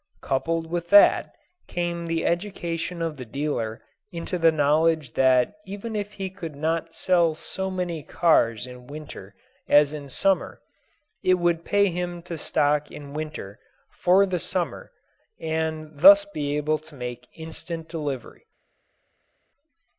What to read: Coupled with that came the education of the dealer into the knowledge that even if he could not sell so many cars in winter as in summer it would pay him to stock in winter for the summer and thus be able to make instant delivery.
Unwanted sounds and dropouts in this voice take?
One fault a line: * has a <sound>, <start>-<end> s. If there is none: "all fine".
all fine